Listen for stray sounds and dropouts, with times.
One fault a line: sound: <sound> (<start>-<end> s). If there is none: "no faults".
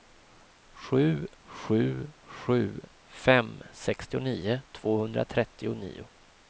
no faults